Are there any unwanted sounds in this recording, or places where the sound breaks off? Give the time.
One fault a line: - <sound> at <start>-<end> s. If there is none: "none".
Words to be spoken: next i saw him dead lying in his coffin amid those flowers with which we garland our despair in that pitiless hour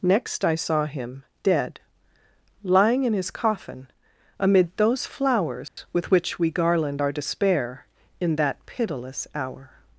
- dropout at 5.7-5.8 s